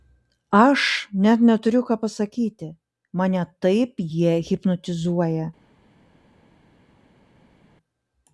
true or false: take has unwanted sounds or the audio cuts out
false